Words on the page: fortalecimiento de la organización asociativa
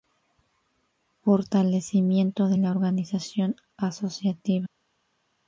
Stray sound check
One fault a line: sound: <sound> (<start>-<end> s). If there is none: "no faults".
no faults